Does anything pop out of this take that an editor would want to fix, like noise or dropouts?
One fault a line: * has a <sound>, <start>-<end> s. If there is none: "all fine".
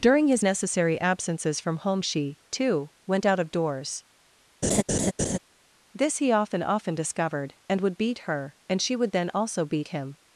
* has a laugh, 4.6-5.4 s